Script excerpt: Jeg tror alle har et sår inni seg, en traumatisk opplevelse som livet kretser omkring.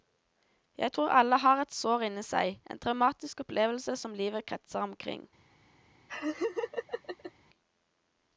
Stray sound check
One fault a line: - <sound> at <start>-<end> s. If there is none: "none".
- laugh at 6.1-7.3 s